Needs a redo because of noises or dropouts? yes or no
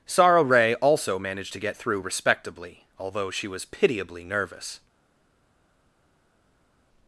no